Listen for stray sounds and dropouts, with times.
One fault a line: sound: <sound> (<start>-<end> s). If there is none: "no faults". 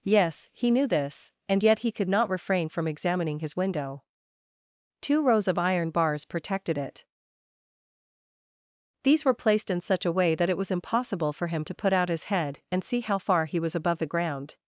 no faults